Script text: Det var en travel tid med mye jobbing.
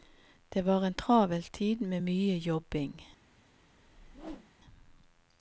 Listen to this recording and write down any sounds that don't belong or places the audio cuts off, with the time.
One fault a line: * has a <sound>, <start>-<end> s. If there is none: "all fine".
* has a whoosh, 3.8-4.5 s